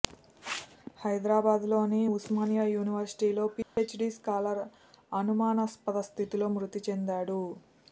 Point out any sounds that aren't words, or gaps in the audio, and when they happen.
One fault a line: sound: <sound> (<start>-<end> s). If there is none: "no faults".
sound: dropout (3.6-3.8 s)